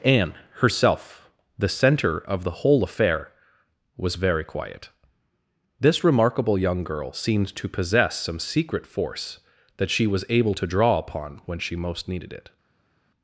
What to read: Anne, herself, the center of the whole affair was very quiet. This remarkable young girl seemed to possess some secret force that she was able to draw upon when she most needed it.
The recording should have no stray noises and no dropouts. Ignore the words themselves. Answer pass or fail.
pass